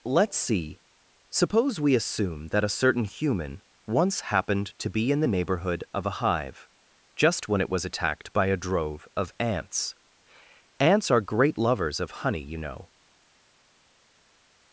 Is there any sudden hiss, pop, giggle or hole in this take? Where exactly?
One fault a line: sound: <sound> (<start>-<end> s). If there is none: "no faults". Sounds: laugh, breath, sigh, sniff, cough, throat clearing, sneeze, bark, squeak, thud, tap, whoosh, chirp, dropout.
no faults